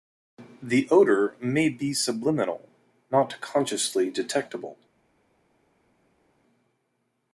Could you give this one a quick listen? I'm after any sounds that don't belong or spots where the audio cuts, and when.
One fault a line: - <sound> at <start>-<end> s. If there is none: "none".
none